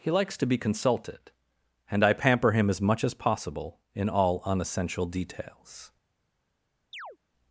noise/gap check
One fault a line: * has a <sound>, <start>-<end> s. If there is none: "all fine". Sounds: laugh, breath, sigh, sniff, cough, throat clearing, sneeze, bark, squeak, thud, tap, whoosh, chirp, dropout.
* has a chirp, 6.9-7.2 s